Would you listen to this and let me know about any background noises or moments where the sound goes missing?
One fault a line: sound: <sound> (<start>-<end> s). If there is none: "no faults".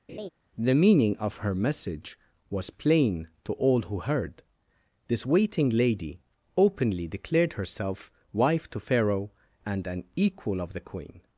sound: laugh (0.1-0.3 s)